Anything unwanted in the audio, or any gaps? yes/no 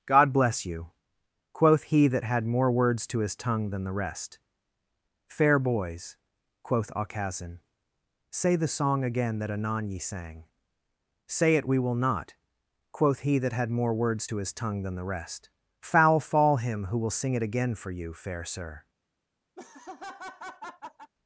yes